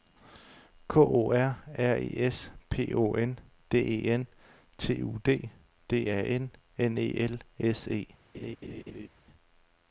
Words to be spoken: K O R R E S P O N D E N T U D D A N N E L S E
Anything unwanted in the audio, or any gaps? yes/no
yes